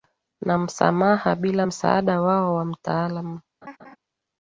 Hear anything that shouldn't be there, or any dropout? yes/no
yes